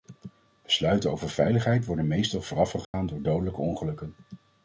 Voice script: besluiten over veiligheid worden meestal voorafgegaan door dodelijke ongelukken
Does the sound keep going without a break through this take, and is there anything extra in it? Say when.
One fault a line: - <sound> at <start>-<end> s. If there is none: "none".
- dropout at 2.8-2.9 s